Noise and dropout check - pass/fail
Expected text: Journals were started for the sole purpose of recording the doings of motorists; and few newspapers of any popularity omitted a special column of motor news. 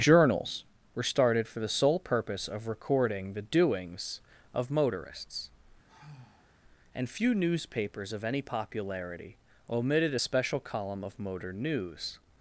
fail